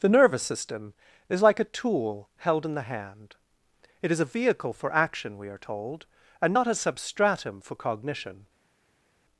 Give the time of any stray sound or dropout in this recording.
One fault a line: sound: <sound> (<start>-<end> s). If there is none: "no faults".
no faults